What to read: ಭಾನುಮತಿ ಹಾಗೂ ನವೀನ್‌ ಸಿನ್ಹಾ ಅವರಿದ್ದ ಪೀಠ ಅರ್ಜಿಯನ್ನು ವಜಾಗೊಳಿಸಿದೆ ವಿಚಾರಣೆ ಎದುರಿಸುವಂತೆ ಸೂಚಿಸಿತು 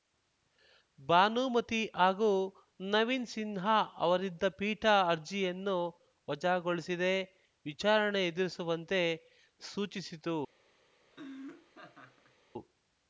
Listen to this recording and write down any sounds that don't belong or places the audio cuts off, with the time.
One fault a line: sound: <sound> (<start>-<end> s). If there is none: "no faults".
sound: laugh (11.1-12.4 s)